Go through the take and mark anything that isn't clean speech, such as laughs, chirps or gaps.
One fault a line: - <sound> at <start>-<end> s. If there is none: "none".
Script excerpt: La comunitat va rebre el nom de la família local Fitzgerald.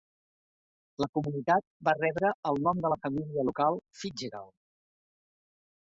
none